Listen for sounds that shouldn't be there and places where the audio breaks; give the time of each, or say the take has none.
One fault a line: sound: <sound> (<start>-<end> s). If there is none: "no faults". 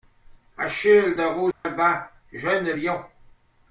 sound: dropout (1.5-1.6 s)